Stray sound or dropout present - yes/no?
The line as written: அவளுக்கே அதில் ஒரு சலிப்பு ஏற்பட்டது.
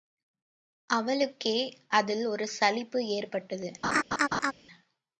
yes